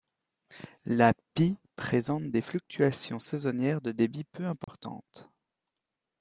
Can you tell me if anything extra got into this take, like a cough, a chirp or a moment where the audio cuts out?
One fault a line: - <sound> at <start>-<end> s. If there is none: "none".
- dropout at 4.6-4.7 s